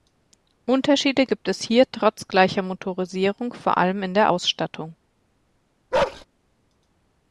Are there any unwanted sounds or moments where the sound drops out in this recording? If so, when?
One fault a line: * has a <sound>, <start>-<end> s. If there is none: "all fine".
* has a bark, 5.9-6.2 s